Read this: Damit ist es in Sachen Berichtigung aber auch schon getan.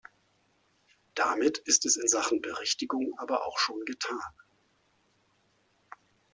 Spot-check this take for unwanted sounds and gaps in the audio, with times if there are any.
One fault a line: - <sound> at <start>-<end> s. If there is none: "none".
none